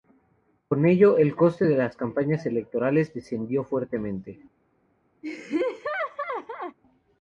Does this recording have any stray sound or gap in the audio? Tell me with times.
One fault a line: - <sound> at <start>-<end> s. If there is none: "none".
- laugh at 5.2-6.8 s